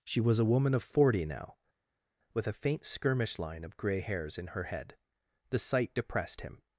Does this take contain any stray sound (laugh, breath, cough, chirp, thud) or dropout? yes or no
no